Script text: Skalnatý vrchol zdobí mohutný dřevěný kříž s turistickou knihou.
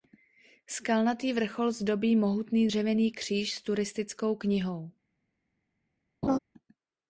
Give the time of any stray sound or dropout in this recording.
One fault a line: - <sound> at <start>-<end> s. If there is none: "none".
- laugh at 6.2-6.4 s